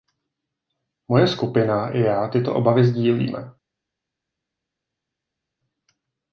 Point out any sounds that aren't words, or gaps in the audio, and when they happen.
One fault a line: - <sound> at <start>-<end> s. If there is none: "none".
none